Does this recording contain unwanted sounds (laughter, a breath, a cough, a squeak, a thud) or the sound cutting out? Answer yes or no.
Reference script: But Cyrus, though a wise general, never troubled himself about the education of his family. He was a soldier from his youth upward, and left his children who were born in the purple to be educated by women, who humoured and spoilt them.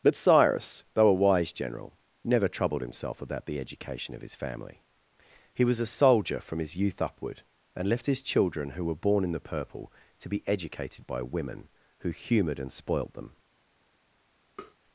yes